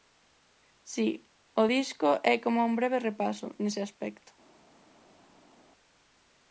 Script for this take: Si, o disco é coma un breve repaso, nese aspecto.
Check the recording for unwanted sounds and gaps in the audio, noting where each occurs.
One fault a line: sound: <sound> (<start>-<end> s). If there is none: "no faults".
no faults